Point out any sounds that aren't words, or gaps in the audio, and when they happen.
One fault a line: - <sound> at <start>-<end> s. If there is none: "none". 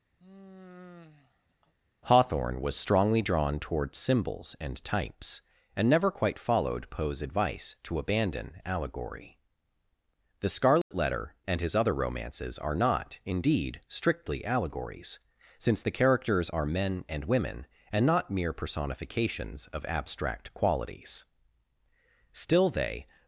- sigh at 0.2-1.7 s
- dropout at 10.8-10.9 s